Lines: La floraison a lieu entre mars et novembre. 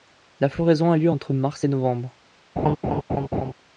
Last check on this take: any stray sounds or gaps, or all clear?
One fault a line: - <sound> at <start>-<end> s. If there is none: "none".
- laugh at 2.6-3.5 s